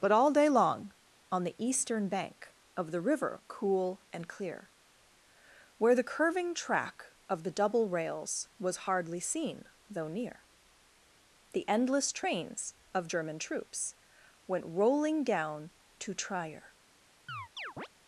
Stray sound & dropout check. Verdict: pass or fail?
fail